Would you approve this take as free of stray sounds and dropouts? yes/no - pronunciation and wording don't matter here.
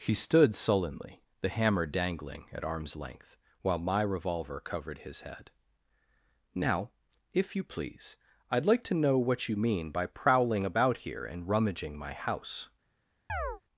no